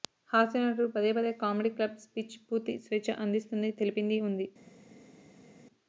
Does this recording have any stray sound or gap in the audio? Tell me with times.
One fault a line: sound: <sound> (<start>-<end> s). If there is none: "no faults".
no faults